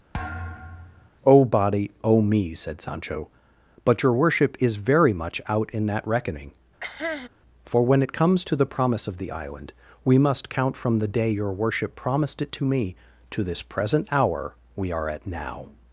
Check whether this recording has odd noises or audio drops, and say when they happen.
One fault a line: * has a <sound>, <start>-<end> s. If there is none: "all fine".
* has a thud, 0.1-1.1 s
* has a cough, 6.8-7.3 s